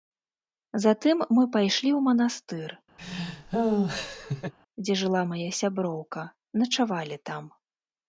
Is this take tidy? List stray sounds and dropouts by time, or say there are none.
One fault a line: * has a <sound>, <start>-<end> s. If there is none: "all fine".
* has a laugh, 3.0-4.5 s